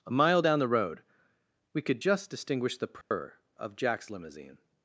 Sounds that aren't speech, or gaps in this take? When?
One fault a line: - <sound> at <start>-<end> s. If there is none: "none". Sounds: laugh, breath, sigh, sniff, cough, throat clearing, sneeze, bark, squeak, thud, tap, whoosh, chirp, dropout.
- dropout at 3.0-3.1 s